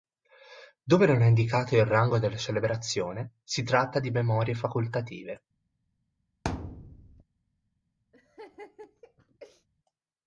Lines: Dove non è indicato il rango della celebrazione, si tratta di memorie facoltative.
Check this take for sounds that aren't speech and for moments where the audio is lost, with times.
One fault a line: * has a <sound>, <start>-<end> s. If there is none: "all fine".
* has a thud, 6.4-7.2 s
* has a laugh, 8.1-9.7 s